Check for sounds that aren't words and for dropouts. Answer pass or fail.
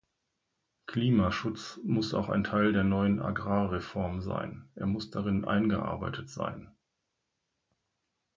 pass